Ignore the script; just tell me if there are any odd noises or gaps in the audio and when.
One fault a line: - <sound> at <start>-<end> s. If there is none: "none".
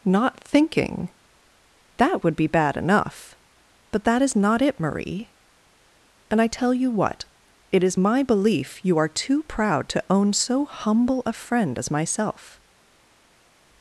none